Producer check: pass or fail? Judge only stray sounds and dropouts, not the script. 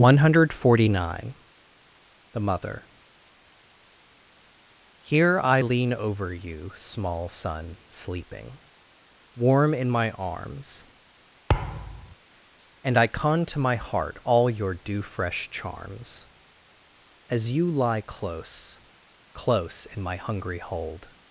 fail